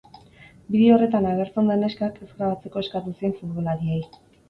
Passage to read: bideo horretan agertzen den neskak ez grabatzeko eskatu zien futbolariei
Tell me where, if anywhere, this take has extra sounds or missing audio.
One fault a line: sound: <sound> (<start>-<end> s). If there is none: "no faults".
no faults